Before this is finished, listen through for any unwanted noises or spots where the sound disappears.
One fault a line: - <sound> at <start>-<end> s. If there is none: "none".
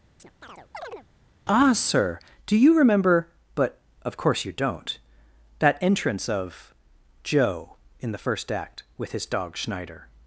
- chirp at 0.2-1.1 s